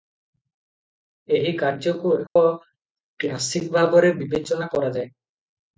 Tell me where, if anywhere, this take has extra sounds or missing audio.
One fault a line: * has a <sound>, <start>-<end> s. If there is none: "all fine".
* has a dropout, 2.3-2.4 s